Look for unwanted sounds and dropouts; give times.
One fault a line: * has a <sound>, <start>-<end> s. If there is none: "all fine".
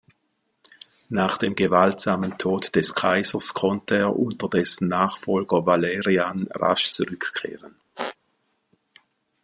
* has a squeak, 8.0-8.2 s